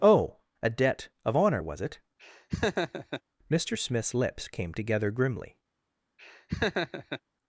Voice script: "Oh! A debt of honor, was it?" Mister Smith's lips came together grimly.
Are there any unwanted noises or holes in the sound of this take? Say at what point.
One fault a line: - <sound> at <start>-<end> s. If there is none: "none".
- laugh at 2.2-3.2 s
- laugh at 6.2-7.2 s